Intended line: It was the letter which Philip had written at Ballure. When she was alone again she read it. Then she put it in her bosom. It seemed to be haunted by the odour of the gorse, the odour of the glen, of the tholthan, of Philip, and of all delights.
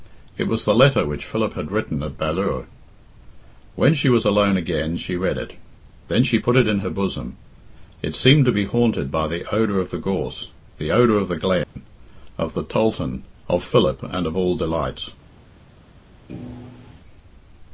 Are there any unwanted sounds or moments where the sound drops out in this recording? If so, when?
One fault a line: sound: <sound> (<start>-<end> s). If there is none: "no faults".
sound: dropout (11.6-11.8 s)
sound: thud (16.3-17.0 s)